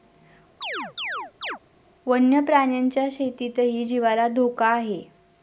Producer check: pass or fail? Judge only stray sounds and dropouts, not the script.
fail